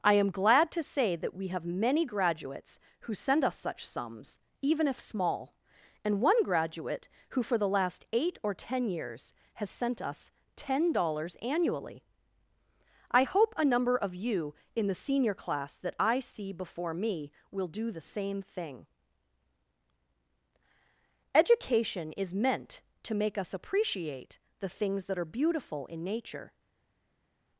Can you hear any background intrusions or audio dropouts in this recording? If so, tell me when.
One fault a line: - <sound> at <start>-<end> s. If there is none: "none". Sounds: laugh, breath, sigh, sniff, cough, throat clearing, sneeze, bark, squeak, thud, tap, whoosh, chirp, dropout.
none